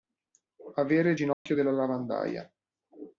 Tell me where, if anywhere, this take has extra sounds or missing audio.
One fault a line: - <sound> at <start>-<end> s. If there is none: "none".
- dropout at 1.3-1.5 s